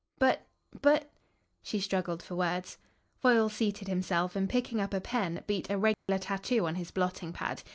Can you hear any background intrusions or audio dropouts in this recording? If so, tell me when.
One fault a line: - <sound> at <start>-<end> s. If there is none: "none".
- dropout at 5.9-6.1 s